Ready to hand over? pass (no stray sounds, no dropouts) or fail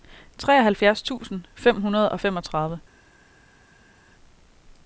pass